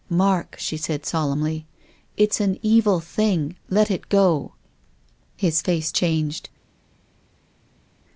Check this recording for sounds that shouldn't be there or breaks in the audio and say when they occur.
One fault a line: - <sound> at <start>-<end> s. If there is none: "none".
none